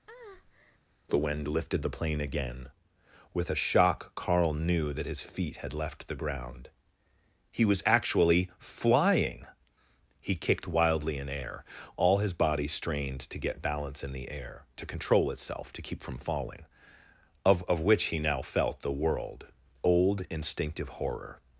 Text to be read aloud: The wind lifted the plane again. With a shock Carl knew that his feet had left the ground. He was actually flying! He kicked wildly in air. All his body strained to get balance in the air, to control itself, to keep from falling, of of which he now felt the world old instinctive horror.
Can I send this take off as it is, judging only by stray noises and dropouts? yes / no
no